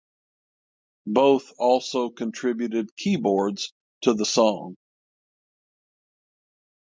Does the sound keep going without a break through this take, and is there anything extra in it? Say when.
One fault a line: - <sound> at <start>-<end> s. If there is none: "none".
none